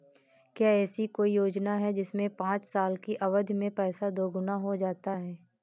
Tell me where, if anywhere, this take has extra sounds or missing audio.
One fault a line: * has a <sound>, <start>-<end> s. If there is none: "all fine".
all fine